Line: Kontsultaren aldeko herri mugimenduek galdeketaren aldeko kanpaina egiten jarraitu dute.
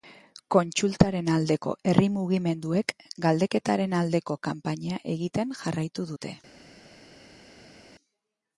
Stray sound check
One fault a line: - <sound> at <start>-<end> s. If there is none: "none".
none